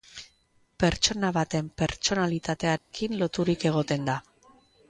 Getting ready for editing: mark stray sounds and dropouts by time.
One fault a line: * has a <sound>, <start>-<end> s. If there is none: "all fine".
* has a dropout, 2.8-2.9 s